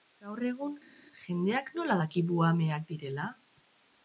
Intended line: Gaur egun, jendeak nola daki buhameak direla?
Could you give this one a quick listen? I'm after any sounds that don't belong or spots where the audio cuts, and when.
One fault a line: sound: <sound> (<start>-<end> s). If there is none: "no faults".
no faults